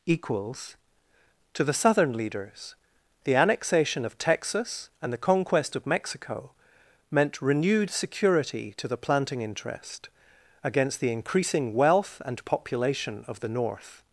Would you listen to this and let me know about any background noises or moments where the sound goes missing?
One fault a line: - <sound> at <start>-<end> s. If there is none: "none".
none